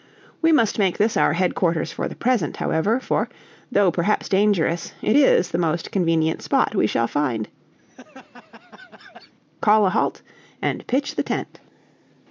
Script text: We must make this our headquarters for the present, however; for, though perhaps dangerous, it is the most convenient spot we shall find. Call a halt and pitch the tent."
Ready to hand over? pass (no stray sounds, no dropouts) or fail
fail